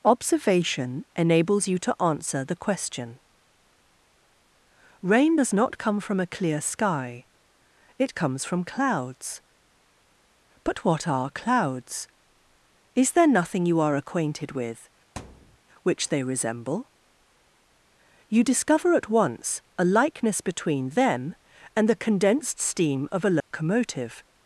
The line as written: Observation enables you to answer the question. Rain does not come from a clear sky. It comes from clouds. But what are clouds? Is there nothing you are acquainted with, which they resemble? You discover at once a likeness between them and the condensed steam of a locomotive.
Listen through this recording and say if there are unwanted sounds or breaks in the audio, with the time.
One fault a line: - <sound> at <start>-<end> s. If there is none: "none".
- thud at 15.2-15.6 s
- dropout at 23.4-23.5 s